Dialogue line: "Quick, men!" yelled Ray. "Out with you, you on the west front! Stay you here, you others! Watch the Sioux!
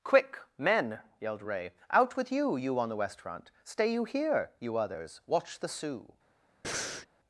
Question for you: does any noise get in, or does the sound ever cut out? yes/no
yes